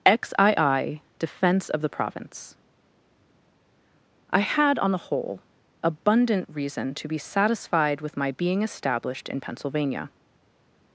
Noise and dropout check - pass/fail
pass